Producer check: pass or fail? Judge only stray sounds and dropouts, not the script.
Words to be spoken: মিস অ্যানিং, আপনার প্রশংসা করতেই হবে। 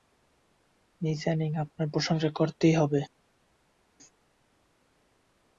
pass